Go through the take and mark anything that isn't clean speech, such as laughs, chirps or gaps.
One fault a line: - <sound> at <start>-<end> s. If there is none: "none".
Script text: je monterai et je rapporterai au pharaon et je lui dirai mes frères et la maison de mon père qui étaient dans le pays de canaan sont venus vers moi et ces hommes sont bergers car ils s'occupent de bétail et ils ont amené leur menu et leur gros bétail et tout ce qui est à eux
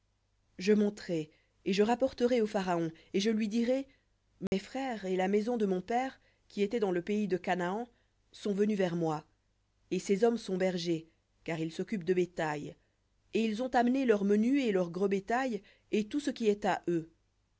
- dropout at 4.5-4.5 s